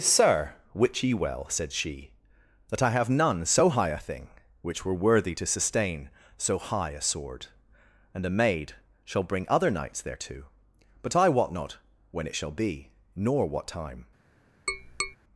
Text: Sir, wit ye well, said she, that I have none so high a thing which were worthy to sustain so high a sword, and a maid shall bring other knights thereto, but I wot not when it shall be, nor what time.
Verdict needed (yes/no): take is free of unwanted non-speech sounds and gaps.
no